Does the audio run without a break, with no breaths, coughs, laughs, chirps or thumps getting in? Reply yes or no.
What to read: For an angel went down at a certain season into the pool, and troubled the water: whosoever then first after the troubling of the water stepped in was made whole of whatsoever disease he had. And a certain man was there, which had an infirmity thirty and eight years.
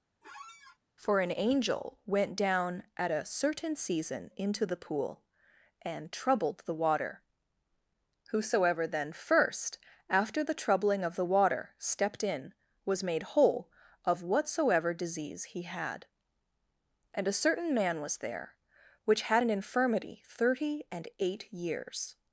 no